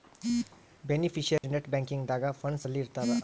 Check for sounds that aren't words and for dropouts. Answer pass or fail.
fail